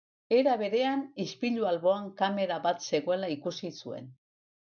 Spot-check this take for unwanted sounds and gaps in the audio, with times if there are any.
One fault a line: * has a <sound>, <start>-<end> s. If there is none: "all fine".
all fine